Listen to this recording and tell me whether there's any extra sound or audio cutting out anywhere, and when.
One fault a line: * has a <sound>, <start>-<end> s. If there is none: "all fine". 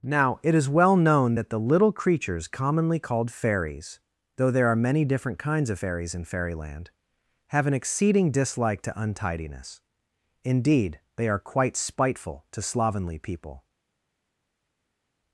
all fine